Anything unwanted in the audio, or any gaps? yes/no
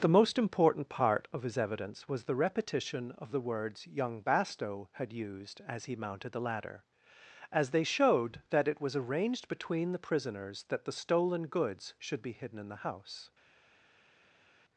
no